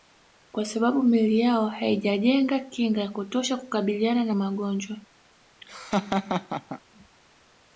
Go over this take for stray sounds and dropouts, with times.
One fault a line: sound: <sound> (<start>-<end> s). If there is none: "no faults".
sound: laugh (5.6-6.8 s)